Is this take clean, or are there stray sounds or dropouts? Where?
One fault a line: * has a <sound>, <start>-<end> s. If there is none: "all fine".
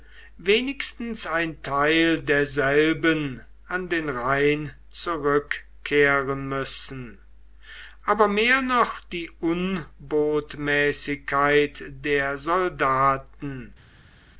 all fine